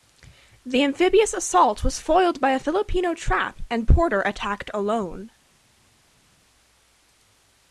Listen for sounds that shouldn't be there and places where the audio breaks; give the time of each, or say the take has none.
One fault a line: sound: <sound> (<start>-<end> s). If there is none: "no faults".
no faults